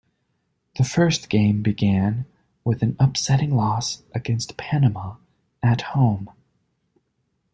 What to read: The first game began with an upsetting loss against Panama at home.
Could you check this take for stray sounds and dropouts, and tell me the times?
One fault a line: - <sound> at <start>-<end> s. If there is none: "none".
none